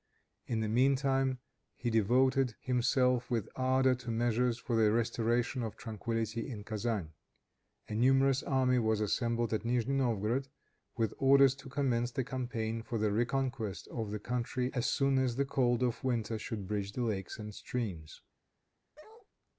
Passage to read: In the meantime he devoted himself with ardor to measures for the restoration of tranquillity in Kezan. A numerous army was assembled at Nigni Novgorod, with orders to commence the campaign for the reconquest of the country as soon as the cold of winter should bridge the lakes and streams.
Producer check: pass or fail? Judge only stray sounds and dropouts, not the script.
fail